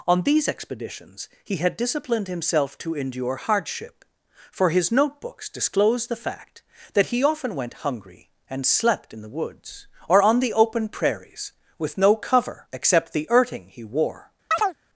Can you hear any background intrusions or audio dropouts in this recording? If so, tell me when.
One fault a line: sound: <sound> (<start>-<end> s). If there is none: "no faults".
sound: chirp (14.5-14.8 s)